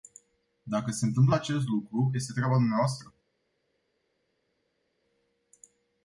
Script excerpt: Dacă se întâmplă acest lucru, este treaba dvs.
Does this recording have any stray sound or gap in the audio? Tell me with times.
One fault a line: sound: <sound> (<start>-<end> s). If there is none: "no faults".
no faults